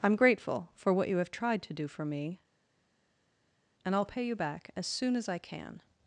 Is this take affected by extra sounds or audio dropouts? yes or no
no